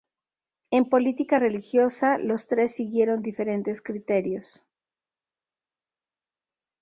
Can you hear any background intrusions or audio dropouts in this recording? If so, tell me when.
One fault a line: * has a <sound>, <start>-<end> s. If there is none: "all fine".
all fine